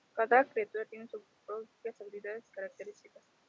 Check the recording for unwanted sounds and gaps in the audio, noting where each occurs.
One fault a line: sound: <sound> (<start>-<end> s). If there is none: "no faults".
no faults